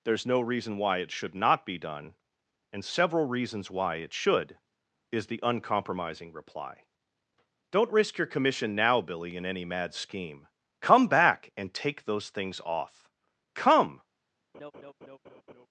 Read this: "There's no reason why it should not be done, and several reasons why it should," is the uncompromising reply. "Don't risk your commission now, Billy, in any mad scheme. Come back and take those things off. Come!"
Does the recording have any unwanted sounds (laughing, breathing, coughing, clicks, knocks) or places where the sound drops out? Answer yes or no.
yes